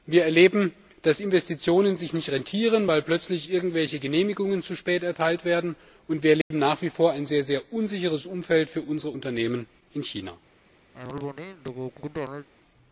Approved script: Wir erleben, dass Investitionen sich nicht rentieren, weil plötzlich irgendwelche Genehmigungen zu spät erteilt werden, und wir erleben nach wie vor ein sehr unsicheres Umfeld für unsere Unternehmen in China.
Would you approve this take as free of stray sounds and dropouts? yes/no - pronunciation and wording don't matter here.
no